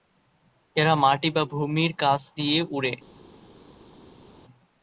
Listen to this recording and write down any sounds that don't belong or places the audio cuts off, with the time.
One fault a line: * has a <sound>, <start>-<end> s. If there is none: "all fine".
all fine